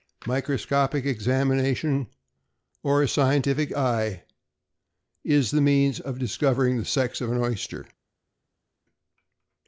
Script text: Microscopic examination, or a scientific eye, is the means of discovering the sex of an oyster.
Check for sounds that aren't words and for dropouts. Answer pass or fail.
pass